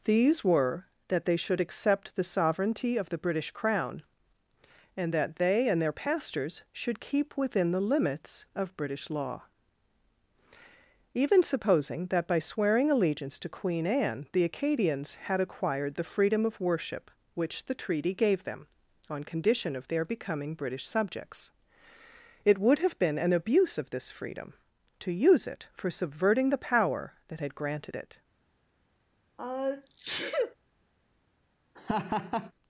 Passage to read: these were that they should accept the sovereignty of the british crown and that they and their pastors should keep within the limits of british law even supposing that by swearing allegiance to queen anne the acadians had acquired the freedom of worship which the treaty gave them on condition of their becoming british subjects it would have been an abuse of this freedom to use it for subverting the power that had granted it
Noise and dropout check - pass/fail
fail